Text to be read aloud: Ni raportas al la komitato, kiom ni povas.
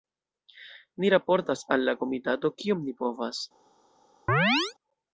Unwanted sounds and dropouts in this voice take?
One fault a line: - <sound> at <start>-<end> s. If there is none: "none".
- chirp at 4.3-4.7 s